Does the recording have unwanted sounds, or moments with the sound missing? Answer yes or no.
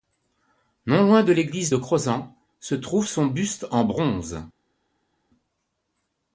no